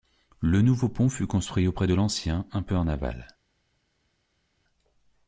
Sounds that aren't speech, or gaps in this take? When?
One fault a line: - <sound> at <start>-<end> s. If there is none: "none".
none